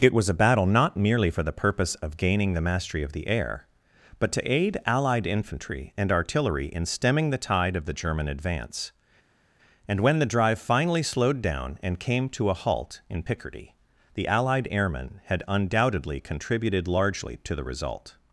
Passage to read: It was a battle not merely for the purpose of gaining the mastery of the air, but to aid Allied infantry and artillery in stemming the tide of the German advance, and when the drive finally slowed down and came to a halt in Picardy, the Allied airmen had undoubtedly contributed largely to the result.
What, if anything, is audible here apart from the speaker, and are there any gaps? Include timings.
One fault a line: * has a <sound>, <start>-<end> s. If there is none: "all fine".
all fine